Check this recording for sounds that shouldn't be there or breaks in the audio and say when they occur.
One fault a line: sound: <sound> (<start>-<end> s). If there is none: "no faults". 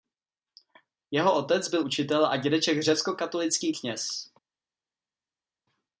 no faults